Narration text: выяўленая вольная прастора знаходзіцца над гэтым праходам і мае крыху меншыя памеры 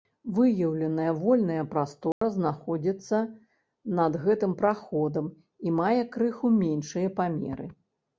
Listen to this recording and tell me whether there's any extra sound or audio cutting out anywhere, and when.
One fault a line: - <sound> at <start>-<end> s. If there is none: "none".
- dropout at 2.1-2.2 s